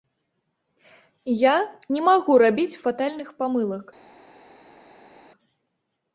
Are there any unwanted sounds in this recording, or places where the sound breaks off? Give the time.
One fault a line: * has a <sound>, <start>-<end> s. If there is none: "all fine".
all fine